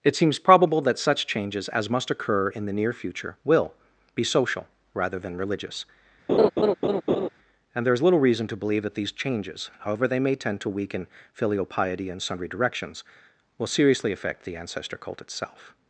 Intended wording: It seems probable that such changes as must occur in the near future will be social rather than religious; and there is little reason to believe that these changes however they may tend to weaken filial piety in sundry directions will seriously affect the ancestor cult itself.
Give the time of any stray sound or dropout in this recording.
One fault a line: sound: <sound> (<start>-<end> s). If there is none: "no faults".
sound: laugh (6.3-7.3 s)